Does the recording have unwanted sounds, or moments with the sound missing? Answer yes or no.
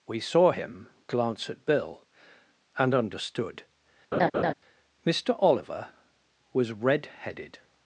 yes